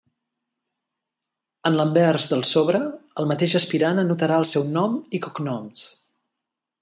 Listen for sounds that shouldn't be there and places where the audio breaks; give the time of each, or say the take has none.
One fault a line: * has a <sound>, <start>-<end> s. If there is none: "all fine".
all fine